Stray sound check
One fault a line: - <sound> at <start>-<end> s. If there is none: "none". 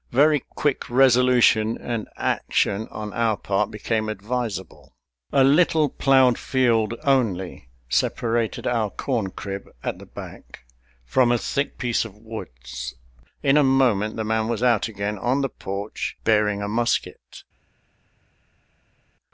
none